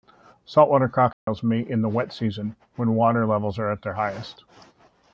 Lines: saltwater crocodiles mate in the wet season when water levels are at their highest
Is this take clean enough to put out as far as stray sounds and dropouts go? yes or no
no